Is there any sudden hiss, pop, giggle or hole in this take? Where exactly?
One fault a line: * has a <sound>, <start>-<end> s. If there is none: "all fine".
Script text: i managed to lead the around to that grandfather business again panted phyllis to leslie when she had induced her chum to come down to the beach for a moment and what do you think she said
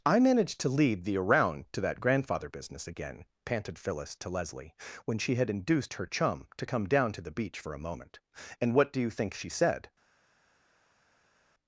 all fine